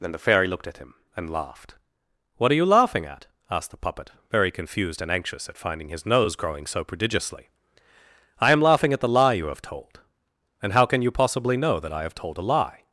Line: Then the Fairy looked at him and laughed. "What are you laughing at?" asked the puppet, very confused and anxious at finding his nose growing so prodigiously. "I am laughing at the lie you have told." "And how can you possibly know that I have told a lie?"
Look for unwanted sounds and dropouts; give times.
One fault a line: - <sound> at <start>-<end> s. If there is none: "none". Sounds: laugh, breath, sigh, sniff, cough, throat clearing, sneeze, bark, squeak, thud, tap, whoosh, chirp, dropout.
none